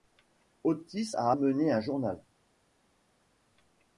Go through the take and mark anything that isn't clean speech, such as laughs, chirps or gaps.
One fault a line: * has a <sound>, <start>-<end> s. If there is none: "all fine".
all fine